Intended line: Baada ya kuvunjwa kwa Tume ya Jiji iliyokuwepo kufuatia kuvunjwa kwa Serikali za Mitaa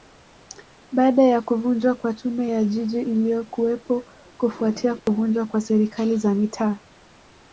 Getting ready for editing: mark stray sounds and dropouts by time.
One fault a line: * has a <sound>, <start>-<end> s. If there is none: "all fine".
* has a dropout, 5.0-5.1 s